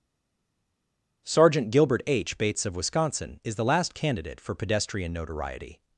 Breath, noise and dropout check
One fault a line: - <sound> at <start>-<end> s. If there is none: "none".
none